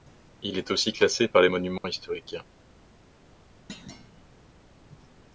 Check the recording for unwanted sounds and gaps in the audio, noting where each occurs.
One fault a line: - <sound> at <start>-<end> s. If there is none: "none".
- dropout at 1.8-1.8 s
- thud at 3.7-4.4 s